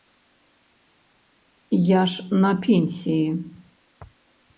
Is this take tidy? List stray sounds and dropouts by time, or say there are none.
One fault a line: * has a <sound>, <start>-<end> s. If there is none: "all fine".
all fine